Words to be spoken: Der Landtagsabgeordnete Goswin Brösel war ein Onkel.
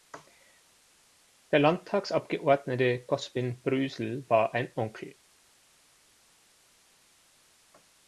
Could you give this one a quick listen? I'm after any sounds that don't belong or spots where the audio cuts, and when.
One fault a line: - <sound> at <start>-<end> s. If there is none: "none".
none